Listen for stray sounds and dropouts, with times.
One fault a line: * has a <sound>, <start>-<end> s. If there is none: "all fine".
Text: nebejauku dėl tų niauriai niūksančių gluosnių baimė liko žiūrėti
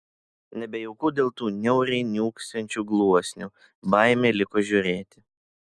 all fine